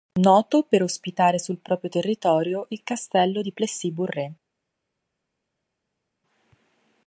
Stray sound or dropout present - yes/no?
no